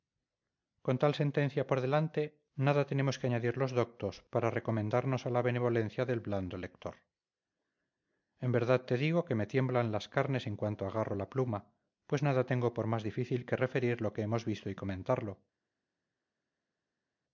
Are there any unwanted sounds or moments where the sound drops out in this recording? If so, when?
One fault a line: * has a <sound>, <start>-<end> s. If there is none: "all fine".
all fine